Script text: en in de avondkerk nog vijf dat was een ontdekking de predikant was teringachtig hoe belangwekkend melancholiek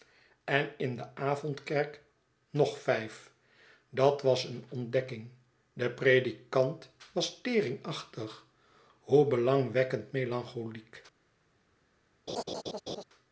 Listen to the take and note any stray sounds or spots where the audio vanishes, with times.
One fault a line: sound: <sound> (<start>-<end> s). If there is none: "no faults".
sound: laugh (12.3-13.0 s)